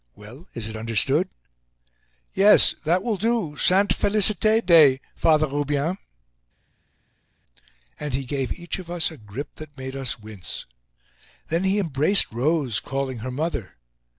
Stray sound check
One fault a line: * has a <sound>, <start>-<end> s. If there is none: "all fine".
all fine